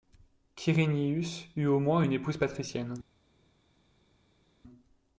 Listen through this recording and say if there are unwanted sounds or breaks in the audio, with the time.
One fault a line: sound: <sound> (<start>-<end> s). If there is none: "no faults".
no faults